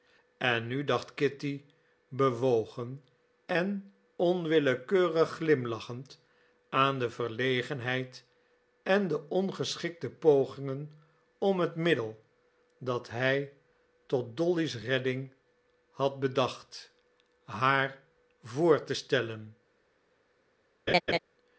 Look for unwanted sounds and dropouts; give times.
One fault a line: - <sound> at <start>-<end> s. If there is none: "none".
- laugh at 20.9-21.2 s